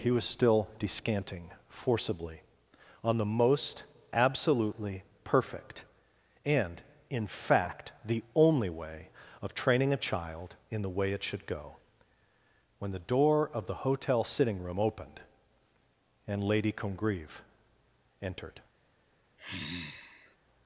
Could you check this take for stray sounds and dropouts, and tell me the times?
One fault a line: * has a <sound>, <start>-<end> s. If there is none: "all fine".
* has a sigh, 19.4-20.4 s